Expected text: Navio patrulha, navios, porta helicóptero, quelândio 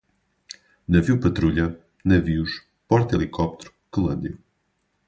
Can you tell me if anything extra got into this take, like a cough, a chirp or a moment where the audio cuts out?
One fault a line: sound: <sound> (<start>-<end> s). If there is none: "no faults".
no faults